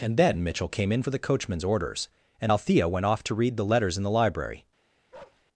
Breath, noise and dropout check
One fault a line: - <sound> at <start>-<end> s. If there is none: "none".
- bark at 5.1-5.4 s